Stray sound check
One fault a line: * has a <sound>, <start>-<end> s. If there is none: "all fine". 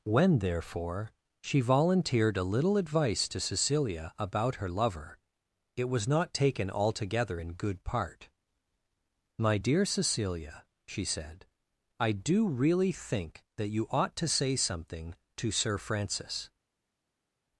all fine